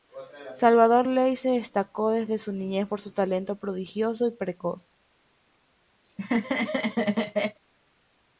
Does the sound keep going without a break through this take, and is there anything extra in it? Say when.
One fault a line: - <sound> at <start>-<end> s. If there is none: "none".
- laugh at 6.0-7.6 s